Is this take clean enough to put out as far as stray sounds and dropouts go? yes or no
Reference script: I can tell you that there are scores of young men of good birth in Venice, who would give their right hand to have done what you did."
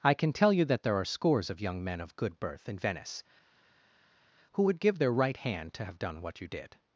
yes